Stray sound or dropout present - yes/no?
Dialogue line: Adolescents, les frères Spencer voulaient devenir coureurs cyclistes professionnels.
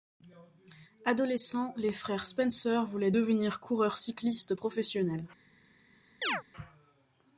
yes